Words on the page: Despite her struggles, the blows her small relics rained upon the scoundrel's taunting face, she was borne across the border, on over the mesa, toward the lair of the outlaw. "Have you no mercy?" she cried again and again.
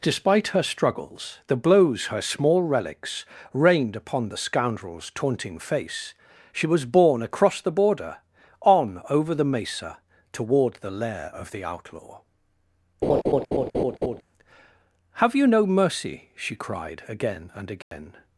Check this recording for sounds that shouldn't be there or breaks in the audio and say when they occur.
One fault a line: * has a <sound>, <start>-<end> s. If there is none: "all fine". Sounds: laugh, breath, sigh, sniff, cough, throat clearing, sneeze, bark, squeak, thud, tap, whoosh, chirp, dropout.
* has a laugh, 13.0-14.2 s
* has a dropout, 17.8-17.9 s